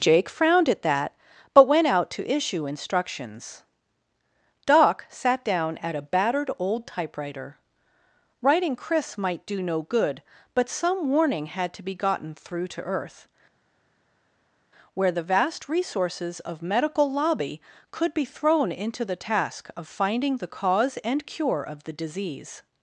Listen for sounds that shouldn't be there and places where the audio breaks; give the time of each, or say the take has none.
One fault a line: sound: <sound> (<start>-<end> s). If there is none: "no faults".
no faults